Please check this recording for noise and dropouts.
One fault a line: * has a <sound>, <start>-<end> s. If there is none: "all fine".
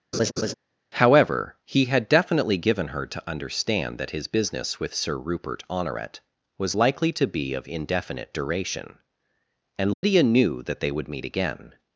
* has a laugh, 0.1-0.5 s
* has a dropout, 9.9-10.0 s